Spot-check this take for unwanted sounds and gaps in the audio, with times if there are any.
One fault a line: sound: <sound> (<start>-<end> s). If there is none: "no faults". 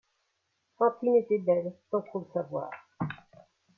no faults